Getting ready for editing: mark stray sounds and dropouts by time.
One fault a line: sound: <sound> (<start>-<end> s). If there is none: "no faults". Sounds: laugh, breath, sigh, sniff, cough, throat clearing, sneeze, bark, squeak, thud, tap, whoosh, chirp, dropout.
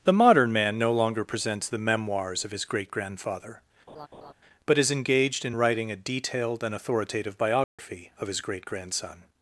sound: laugh (3.9-4.3 s)
sound: dropout (7.6-7.8 s)